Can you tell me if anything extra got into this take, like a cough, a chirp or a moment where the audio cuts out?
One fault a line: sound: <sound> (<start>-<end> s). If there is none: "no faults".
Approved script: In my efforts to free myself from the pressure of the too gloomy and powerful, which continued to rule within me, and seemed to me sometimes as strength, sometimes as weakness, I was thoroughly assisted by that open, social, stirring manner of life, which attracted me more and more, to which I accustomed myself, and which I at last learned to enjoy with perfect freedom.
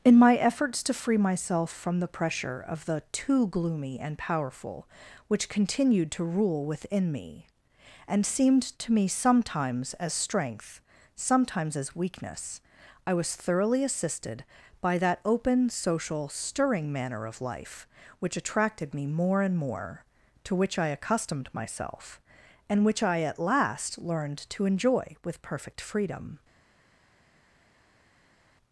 no faults